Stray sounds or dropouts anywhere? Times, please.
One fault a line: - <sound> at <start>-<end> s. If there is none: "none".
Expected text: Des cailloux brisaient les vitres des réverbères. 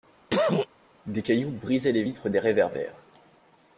- cough at 0.3-0.7 s